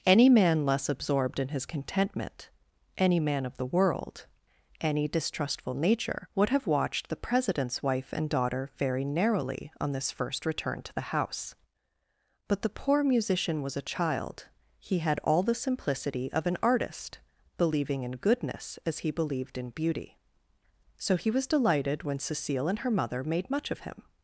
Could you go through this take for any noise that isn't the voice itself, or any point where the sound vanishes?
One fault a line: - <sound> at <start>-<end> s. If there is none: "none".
none